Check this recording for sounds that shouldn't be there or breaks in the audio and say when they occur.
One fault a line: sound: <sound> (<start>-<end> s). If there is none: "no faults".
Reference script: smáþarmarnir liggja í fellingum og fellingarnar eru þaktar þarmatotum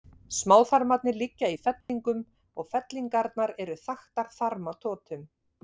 sound: dropout (1.8-1.9 s)